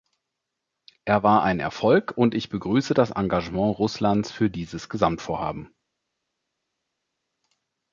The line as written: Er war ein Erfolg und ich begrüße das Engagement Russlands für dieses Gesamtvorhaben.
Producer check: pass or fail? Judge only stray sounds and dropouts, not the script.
pass